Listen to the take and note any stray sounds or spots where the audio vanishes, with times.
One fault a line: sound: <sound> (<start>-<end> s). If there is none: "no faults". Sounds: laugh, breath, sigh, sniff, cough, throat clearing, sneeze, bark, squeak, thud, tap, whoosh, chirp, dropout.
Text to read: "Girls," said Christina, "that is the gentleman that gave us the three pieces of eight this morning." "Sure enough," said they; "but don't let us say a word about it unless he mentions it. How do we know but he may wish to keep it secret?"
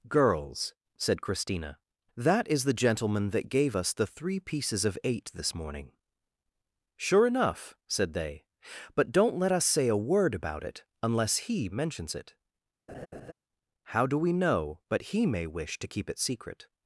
sound: laugh (12.9-13.3 s)